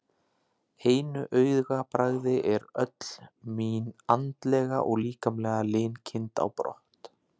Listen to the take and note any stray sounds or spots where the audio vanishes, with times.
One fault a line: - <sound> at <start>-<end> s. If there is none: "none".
none